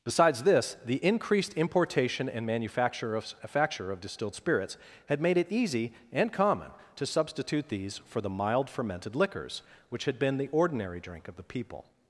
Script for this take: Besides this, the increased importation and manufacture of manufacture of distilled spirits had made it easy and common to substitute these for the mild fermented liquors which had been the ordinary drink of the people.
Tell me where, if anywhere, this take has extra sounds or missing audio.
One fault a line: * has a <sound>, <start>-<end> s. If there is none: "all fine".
all fine